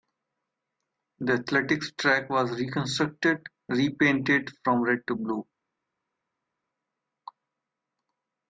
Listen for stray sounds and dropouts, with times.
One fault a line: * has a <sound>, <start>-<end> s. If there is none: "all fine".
all fine